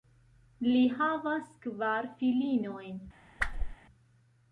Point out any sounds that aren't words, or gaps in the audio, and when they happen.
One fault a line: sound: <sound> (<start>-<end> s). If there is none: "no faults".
sound: whoosh (3.4-3.8 s)